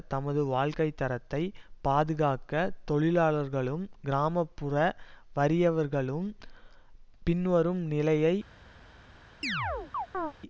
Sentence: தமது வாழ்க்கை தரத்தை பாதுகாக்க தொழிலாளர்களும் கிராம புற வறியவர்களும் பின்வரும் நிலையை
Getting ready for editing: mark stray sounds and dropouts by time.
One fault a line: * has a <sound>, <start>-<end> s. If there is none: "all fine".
* has a chirp, 9.4-10.3 s